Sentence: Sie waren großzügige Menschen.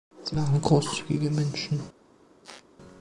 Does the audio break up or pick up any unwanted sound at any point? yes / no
yes